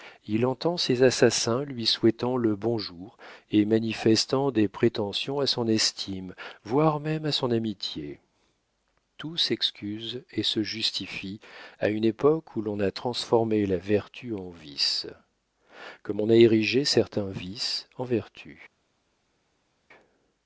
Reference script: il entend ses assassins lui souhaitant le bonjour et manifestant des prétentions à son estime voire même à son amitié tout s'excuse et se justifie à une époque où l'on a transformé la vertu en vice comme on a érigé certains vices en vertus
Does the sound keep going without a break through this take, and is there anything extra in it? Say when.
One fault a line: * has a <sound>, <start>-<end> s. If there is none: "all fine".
all fine